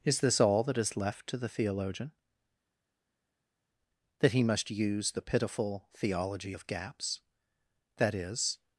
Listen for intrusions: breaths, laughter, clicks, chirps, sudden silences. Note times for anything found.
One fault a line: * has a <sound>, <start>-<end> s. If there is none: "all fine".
all fine